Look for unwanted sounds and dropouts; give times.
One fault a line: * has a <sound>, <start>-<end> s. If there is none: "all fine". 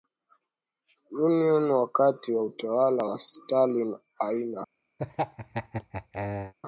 * has a laugh, 5.0-6.5 s